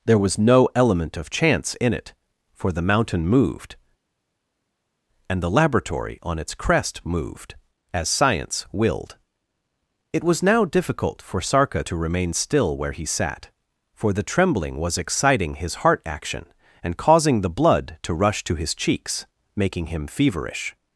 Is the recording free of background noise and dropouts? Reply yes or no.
yes